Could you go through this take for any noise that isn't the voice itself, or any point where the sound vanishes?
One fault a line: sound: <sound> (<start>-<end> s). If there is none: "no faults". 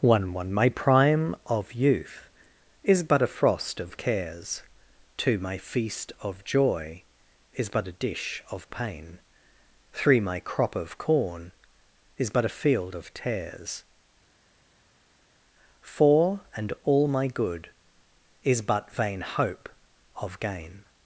no faults